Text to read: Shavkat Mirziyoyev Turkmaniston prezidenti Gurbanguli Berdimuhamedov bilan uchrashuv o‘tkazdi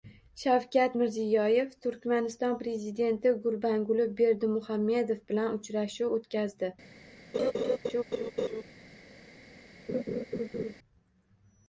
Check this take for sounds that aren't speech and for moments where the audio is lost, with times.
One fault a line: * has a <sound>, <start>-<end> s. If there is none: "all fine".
* has a laugh, 7.3-8.6 s
* has a laugh, 9.9-10.7 s